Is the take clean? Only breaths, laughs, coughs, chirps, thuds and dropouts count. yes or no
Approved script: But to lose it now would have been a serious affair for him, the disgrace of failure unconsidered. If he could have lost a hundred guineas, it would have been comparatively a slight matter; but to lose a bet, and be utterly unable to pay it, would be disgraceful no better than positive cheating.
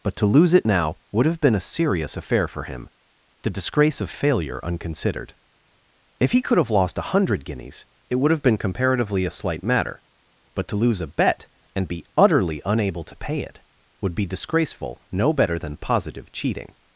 yes